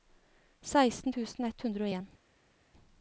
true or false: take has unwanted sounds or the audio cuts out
false